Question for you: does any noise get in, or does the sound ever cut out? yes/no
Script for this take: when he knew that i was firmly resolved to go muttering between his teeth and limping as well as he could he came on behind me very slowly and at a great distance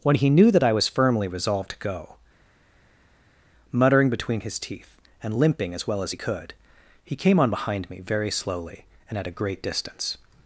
no